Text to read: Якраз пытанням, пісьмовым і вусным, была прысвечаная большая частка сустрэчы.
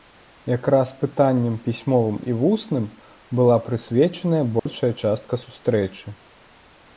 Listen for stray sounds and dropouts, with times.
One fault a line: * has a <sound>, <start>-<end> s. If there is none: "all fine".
* has a dropout, 4.6-4.7 s